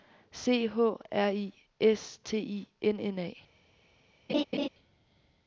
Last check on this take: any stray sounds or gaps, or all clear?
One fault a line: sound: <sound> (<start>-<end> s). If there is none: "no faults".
sound: laugh (4.3-4.7 s)